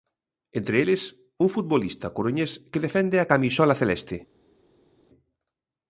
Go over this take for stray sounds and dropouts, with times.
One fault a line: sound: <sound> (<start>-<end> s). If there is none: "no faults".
no faults